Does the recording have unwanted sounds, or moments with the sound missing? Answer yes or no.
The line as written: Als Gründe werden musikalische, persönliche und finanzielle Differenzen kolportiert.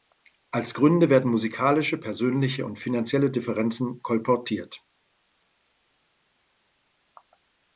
no